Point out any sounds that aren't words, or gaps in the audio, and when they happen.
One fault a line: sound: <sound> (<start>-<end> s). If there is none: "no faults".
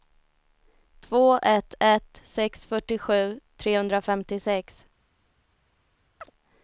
sound: chirp (6.2-6.3 s)